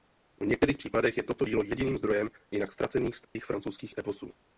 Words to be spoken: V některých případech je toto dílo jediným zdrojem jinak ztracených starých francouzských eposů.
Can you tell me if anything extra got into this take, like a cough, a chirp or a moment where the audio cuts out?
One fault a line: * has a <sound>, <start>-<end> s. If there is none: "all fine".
* has a dropout, 3.2-3.4 s